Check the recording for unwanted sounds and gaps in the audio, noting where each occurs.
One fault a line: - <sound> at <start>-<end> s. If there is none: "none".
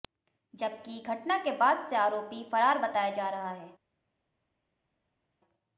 none